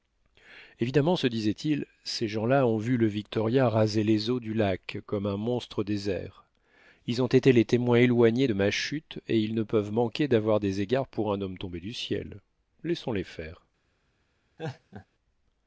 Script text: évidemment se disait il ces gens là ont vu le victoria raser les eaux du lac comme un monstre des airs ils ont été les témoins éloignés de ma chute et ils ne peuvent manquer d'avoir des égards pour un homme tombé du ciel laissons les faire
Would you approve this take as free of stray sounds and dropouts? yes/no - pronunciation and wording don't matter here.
no